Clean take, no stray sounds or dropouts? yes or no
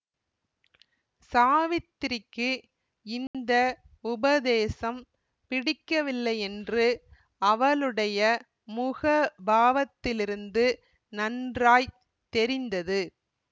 no